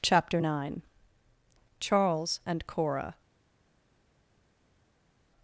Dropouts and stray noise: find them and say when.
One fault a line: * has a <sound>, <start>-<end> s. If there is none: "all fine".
all fine